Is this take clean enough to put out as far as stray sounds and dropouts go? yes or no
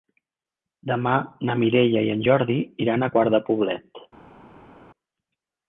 yes